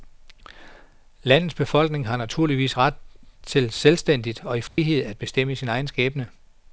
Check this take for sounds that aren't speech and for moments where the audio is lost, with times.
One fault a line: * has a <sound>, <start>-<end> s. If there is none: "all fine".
* has a dropout, 4.7-4.8 s